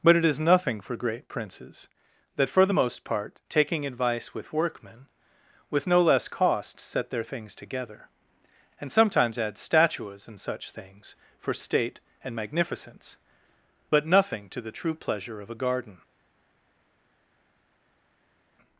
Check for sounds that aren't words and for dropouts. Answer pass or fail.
pass